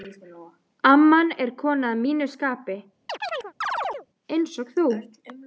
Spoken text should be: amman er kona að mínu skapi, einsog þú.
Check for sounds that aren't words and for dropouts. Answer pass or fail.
fail